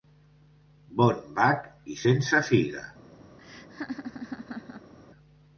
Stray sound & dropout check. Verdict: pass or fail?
fail